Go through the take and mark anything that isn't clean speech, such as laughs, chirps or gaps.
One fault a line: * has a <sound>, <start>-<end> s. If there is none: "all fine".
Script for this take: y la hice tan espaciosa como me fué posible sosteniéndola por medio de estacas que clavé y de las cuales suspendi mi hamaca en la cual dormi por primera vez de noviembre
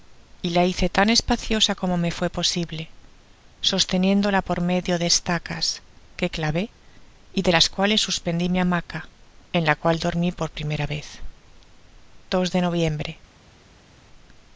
all fine